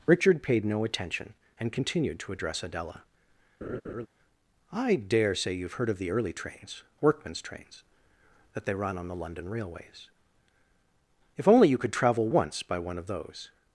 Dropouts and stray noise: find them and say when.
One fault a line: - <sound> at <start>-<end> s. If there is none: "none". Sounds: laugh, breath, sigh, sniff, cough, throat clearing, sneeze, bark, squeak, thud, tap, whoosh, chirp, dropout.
- laugh at 3.6-4.1 s